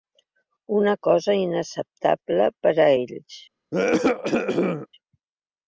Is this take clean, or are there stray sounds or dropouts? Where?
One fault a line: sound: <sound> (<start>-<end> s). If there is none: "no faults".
sound: cough (3.7-4.9 s)